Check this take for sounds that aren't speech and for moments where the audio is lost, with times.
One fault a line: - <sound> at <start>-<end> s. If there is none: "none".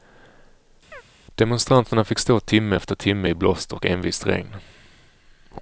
- chirp at 0.9-1.0 s